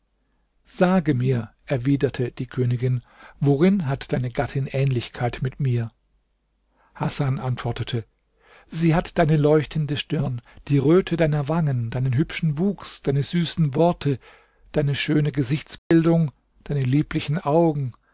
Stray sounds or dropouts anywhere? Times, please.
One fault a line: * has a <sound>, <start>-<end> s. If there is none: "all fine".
* has a dropout, 15.8-15.9 s